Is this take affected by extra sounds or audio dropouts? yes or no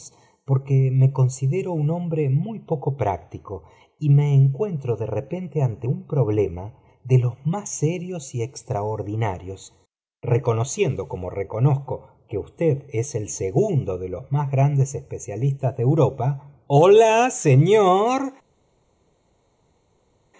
no